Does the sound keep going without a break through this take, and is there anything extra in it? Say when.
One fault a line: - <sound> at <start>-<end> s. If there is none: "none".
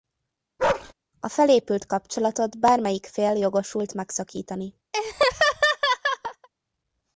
- bark at 0.6-0.9 s
- laugh at 4.9-6.5 s